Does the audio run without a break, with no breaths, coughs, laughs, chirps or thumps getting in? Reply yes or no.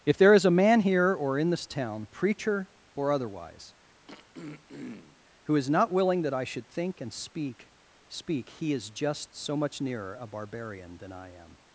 no